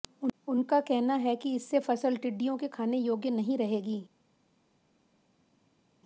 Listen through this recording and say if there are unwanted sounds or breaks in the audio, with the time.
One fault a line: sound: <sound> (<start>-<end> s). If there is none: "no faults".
no faults